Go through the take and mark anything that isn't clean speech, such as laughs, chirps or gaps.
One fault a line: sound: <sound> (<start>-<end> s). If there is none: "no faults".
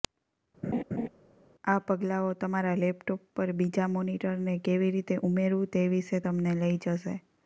sound: laugh (0.6-1.1 s)